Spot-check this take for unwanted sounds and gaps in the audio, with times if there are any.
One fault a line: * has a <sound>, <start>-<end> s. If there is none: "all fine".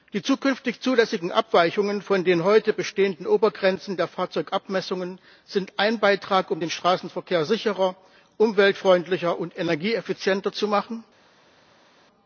all fine